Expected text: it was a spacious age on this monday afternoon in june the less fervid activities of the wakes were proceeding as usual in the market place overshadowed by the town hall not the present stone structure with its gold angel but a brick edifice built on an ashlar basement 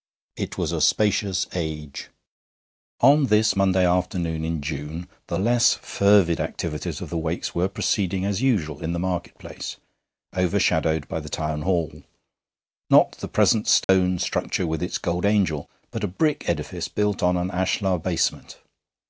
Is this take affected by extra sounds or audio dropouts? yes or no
yes